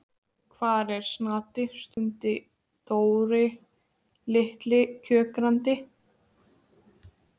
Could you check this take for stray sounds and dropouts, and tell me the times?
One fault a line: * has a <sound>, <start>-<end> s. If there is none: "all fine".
* has a dropout, 1.9-2.0 s